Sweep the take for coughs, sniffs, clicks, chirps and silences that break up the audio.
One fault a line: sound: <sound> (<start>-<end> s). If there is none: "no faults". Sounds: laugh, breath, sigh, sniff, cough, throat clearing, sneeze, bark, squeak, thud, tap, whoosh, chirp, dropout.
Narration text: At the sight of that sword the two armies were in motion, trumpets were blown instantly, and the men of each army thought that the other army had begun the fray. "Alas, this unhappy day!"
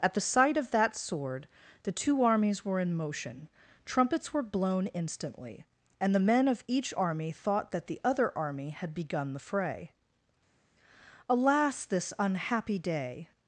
no faults